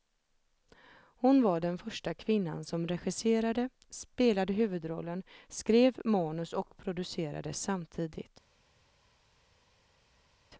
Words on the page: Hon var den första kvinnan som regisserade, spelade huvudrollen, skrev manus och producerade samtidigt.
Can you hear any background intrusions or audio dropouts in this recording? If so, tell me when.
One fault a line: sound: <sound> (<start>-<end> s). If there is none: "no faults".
no faults